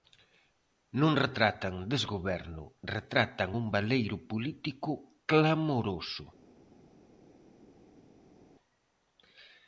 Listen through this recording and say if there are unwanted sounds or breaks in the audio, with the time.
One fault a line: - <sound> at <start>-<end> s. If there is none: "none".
none